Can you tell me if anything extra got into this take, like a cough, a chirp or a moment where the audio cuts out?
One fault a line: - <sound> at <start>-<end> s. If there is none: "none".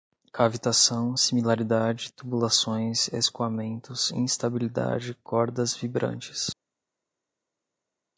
none